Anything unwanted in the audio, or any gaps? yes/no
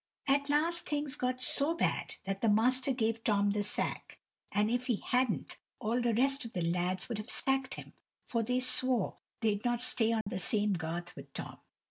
yes